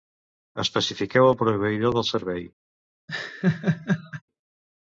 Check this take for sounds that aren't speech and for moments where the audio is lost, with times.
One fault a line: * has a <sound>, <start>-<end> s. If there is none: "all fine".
* has a laugh, 3.1-4.2 s